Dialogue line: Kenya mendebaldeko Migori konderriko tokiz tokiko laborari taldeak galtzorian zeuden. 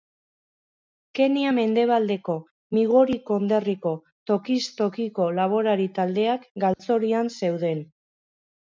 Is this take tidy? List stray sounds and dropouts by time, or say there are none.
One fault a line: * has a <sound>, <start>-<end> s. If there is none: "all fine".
* has a dropout, 6.7-6.8 s